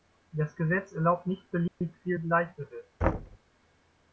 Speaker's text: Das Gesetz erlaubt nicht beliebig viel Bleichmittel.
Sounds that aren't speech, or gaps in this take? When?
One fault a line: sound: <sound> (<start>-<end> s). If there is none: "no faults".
sound: dropout (1.7-1.8 s)
sound: thud (3.0-3.4 s)